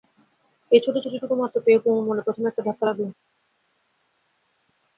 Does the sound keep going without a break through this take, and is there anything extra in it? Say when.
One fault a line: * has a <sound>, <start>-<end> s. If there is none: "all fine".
all fine